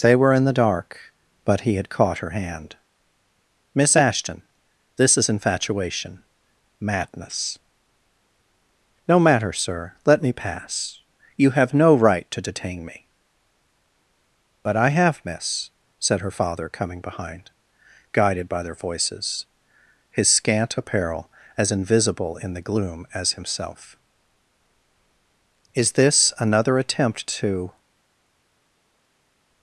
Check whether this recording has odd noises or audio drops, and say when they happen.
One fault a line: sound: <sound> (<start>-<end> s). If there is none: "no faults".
no faults